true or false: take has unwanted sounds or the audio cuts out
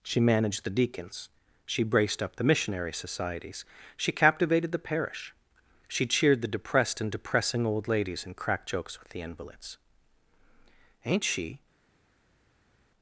false